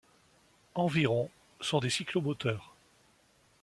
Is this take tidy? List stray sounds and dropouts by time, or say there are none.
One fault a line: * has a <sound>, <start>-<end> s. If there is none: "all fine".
all fine